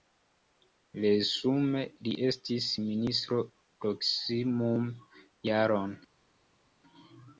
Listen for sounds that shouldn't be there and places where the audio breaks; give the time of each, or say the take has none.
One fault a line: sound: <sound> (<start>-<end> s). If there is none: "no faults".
no faults